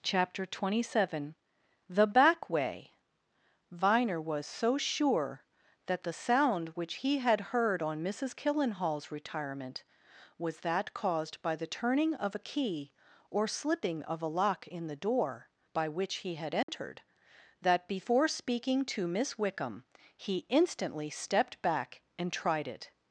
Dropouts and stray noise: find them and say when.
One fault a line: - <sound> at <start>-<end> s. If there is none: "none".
- dropout at 16.6-16.7 s